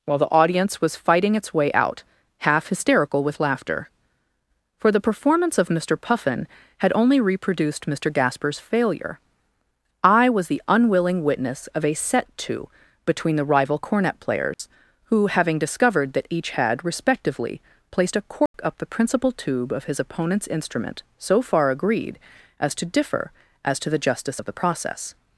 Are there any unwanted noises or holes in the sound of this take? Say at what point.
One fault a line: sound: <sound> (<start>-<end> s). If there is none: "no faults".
sound: dropout (14.5-14.6 s)
sound: dropout (18.5-18.5 s)